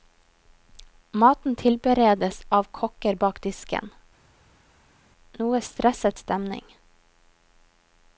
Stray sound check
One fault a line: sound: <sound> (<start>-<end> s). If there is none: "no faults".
no faults